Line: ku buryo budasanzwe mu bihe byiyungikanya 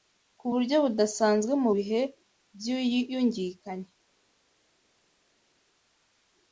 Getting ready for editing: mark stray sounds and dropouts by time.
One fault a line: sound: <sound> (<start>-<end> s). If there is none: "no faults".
no faults